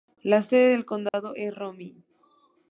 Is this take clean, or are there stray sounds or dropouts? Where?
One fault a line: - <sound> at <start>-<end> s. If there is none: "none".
- dropout at 1.1-1.1 s